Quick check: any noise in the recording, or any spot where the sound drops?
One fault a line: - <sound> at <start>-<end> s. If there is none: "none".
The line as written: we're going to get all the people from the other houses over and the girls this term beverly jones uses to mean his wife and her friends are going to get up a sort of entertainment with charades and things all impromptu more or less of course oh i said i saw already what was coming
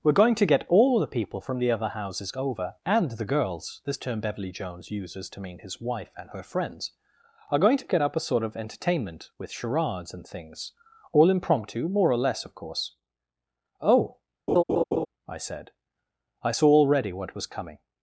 - laugh at 14.5-15.1 s